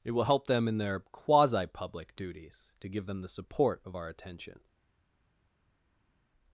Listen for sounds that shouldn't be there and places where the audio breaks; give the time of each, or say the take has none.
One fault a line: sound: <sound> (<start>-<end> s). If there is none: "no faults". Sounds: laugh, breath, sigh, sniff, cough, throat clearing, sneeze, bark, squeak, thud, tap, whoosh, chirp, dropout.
no faults